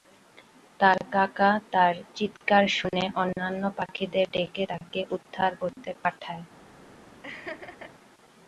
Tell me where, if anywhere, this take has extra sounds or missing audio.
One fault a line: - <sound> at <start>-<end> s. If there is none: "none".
- laugh at 7.2-7.9 s